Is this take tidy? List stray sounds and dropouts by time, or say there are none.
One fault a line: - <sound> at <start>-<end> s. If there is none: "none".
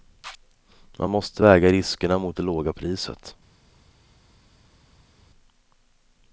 none